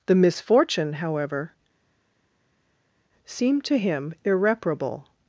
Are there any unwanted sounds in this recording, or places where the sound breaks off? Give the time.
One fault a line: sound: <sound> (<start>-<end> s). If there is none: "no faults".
no faults